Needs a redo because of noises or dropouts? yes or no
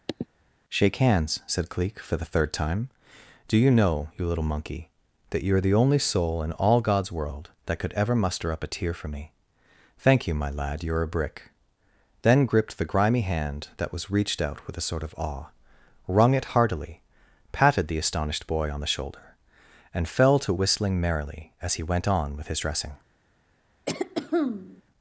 yes